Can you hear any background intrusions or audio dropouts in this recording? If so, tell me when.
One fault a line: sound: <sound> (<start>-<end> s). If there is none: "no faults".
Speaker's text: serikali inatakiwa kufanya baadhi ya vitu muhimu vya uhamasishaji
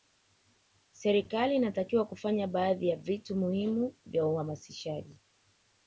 no faults